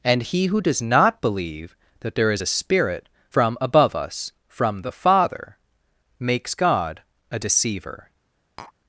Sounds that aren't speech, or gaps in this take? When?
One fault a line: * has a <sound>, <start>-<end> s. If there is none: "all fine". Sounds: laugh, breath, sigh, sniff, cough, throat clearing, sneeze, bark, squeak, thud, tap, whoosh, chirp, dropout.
* has a tap, 8.6-8.7 s